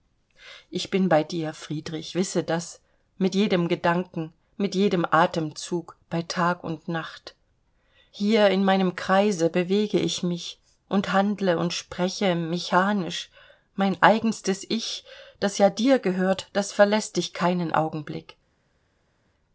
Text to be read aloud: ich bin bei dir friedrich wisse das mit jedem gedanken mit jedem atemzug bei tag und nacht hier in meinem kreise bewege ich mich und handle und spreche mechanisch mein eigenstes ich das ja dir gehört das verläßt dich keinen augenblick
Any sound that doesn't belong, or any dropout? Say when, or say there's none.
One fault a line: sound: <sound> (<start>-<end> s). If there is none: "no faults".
no faults